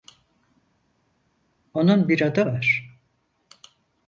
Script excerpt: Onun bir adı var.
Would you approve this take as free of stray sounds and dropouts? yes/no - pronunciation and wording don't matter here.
yes